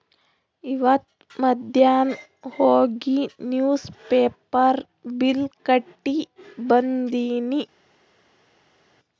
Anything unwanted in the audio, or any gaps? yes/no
no